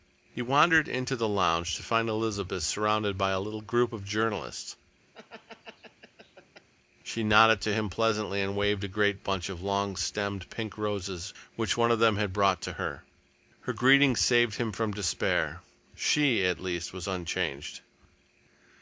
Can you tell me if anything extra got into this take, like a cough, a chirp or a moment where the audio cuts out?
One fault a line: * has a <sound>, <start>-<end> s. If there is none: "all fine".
* has a laugh, 5.1-6.7 s